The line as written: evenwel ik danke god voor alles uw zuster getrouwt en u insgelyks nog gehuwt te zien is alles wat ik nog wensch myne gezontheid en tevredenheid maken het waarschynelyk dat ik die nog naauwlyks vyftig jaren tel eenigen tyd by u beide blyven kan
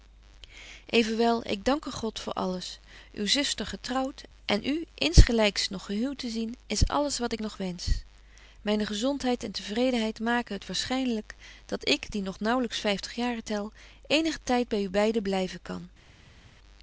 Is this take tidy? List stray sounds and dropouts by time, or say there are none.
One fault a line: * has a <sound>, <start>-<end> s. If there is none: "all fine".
all fine